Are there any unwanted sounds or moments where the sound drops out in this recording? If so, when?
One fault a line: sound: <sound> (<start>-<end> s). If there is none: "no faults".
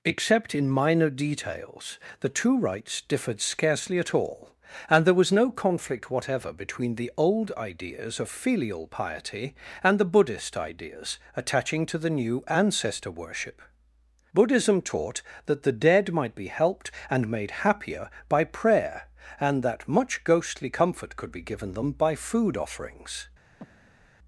sound: breath (23.6-24.1 s)